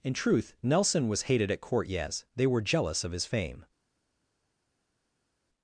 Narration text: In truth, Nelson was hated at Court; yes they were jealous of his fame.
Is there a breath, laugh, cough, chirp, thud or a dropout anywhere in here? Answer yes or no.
no